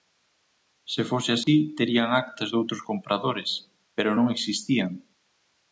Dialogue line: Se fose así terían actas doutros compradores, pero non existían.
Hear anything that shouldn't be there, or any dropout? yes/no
yes